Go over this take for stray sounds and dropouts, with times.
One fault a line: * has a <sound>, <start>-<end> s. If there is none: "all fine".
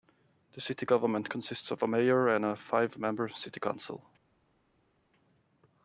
all fine